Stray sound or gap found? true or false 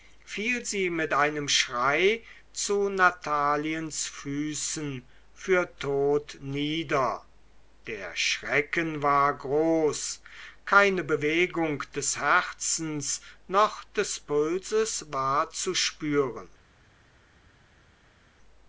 false